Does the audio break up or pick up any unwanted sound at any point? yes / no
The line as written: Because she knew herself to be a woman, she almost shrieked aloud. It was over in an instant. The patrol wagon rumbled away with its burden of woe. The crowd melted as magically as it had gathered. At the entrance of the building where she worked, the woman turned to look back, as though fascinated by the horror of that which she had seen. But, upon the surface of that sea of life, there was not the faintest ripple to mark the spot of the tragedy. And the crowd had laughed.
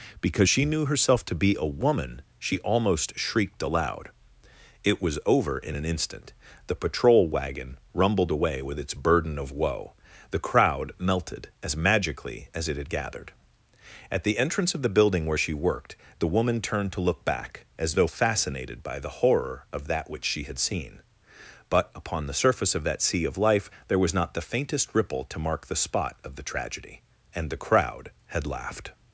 no